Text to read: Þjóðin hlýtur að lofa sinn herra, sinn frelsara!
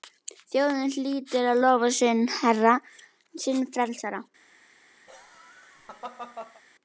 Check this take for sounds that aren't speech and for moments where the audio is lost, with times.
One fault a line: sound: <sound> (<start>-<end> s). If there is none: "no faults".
sound: laugh (5.1-6.6 s)